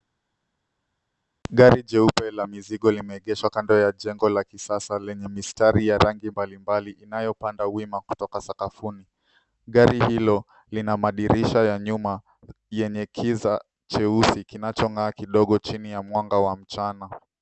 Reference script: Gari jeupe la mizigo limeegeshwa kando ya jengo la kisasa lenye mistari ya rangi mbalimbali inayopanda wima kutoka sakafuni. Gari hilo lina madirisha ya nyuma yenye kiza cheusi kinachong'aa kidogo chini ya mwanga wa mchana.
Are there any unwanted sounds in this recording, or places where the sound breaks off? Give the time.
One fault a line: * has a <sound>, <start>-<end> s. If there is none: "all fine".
all fine